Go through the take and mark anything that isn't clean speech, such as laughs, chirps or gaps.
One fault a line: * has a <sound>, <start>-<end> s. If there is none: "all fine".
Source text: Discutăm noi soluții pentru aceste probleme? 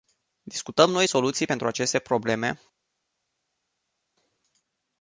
all fine